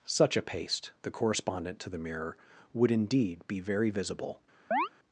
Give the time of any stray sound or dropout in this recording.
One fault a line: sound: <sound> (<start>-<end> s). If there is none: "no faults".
sound: chirp (4.7-4.9 s)